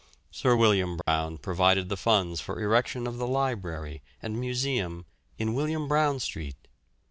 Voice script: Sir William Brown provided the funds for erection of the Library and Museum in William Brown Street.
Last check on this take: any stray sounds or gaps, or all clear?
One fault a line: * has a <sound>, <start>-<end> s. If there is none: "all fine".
* has a dropout, 1.0-1.1 s